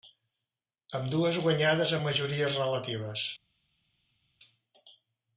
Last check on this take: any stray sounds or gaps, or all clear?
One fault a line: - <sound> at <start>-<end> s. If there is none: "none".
none